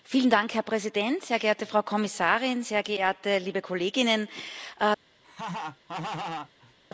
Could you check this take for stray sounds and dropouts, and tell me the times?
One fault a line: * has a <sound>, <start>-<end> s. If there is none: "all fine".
* has a laugh, 5.2-6.7 s